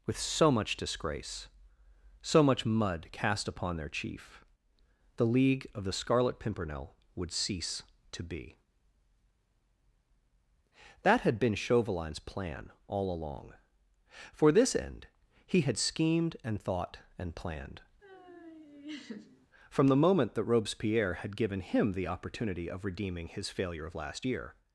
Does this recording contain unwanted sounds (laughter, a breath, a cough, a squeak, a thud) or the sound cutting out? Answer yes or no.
yes